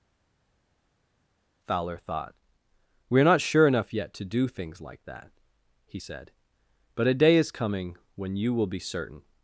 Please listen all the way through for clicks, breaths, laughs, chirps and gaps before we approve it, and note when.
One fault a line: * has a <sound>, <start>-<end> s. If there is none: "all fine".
all fine